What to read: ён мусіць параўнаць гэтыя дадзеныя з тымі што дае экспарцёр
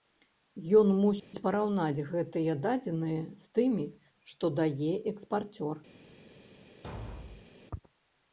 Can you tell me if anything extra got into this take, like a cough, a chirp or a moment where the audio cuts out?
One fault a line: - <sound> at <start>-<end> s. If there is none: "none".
- dropout at 1.2-1.3 s
- thud at 6.8-7.5 s